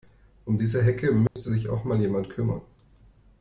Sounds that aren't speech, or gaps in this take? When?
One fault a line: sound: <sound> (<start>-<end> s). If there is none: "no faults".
sound: dropout (1.3-1.4 s)